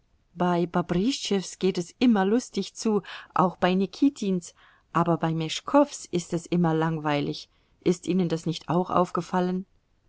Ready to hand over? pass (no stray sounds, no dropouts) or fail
pass